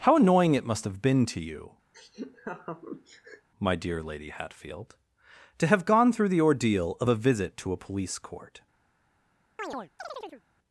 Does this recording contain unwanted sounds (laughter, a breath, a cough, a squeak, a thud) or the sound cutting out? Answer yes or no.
yes